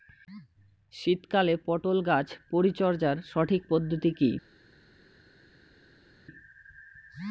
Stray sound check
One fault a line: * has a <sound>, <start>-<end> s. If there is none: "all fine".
all fine